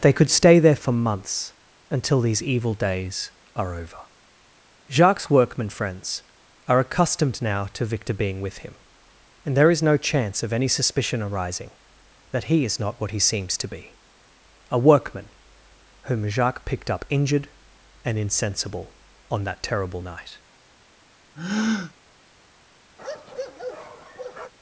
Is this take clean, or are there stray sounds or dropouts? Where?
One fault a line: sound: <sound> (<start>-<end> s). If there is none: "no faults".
sound: breath (21.4-21.9 s)
sound: bark (23.0-24.5 s)